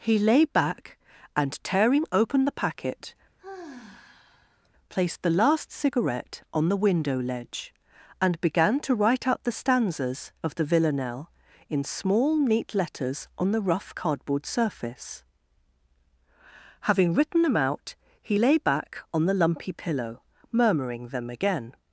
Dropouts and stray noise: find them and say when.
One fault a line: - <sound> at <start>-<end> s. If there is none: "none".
- sigh at 3.4-4.7 s